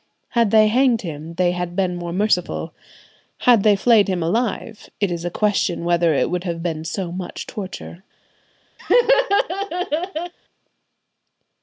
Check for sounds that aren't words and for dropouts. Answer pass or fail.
fail